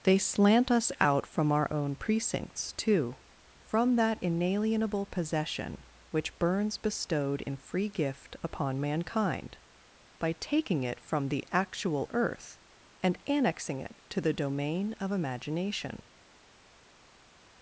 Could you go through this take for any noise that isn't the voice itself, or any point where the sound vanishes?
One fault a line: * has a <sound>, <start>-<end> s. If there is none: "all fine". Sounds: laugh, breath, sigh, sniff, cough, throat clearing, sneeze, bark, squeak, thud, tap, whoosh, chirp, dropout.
all fine